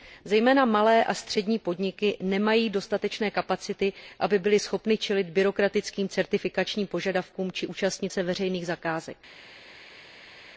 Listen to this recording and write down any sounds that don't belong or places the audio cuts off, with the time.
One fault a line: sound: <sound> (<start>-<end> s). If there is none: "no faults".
no faults